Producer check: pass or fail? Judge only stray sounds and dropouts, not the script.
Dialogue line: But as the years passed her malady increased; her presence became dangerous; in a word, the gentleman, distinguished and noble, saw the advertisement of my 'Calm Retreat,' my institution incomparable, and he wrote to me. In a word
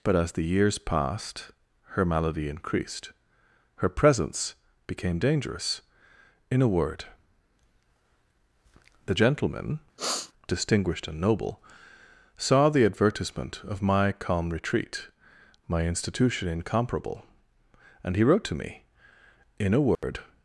fail